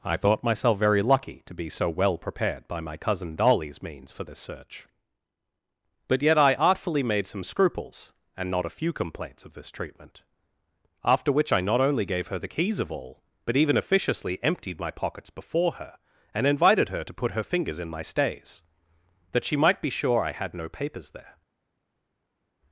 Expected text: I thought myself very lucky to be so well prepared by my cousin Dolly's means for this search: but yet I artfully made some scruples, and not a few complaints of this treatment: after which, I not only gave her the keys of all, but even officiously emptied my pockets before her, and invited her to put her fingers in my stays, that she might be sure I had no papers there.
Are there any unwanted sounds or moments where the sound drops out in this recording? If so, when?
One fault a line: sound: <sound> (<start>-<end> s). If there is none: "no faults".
no faults